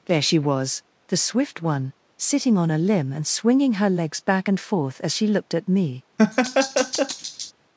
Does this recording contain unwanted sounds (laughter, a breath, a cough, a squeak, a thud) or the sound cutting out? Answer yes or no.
yes